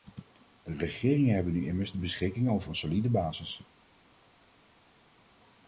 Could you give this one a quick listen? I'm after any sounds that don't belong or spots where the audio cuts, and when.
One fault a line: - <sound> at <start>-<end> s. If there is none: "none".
none